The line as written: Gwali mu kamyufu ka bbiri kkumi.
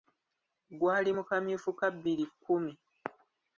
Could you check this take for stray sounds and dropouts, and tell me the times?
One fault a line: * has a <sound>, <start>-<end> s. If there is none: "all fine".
all fine